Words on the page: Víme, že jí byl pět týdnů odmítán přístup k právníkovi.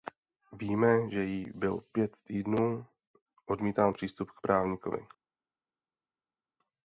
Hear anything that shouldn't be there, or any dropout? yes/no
no